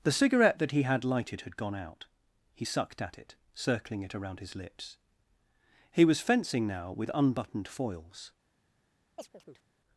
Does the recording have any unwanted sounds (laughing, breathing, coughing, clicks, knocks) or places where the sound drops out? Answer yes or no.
yes